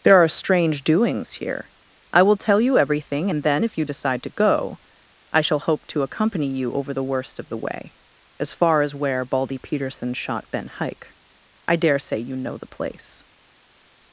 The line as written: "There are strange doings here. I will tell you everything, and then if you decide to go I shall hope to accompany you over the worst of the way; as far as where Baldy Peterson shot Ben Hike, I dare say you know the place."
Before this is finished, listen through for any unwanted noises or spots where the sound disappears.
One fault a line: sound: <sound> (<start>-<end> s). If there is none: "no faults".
no faults